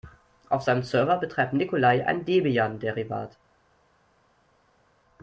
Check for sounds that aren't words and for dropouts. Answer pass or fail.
pass